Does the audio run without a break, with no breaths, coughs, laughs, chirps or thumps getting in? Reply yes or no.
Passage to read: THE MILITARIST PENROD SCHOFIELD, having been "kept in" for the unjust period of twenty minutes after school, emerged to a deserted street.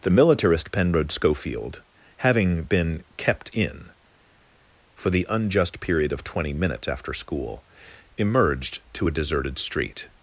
yes